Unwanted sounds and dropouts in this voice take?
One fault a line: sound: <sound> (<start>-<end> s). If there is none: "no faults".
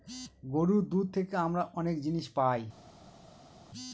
no faults